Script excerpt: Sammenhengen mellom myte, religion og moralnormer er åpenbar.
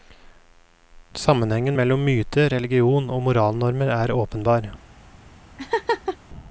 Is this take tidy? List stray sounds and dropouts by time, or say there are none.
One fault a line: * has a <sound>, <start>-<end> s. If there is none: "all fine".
* has a laugh, 5.6-6.2 s